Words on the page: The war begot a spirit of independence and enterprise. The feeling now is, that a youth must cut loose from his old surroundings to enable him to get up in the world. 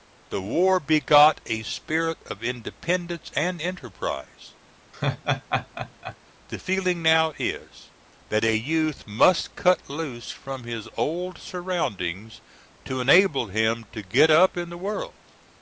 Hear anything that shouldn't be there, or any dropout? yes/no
yes